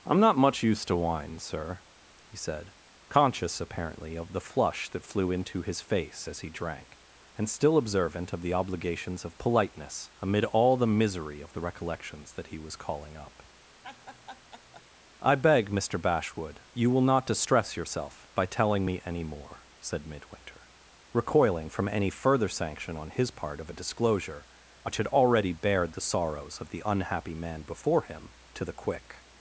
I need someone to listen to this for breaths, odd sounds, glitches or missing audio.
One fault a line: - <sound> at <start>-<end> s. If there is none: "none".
- laugh at 13.8-14.9 s